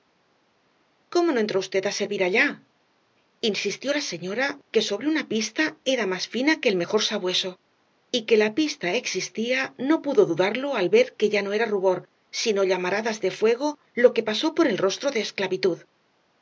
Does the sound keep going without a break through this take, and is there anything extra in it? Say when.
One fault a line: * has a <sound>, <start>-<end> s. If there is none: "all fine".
all fine